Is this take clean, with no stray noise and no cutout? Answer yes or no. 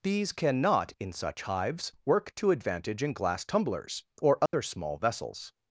no